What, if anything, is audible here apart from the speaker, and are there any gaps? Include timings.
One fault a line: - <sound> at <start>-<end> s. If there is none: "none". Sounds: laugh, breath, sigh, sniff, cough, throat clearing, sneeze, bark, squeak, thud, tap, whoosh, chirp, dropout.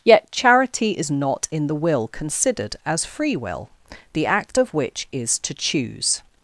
none